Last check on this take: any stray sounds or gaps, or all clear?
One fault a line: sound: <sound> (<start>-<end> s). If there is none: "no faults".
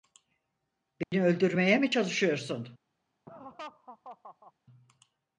sound: dropout (1.0-1.1 s)
sound: laugh (3.3-4.5 s)